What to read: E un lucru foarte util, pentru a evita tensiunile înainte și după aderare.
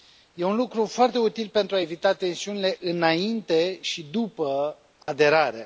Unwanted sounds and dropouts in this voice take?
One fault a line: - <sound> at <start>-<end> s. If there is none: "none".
- dropout at 5.0-5.1 s